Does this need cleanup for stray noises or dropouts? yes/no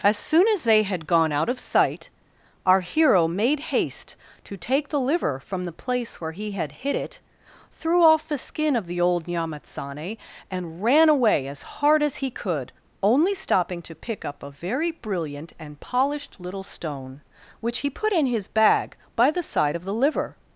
no